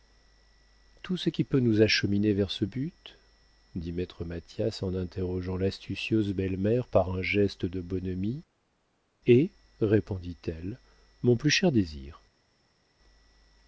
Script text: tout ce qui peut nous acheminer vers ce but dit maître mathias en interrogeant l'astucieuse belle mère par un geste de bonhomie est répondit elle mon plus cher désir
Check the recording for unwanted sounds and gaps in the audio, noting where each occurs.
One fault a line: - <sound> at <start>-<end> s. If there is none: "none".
none